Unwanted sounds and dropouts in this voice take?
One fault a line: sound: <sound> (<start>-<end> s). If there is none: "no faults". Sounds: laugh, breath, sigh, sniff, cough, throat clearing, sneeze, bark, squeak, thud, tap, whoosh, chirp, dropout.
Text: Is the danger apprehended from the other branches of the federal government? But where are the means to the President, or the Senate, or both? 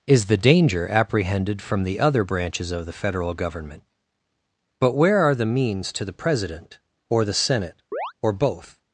sound: chirp (7.9-8.1 s)